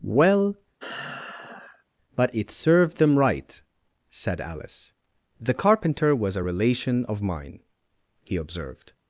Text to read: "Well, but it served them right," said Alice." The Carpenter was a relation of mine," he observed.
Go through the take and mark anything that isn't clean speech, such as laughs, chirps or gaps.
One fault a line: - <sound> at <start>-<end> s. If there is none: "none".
- sigh at 0.8-1.8 s